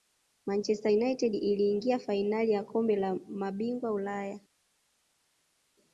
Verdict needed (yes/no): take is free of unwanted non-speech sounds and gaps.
yes